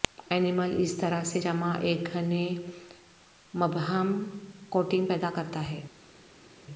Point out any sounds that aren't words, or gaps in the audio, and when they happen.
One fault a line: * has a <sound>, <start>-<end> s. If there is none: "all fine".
all fine